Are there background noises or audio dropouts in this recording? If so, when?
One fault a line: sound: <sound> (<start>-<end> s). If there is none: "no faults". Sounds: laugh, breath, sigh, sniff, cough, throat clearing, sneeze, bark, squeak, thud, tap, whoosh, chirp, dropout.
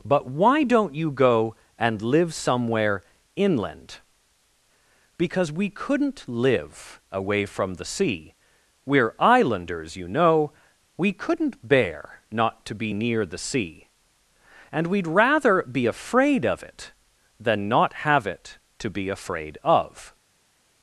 no faults